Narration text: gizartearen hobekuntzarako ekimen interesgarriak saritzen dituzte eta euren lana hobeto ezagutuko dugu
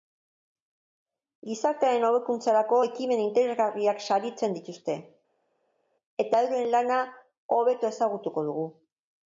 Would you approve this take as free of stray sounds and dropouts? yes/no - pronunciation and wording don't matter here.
yes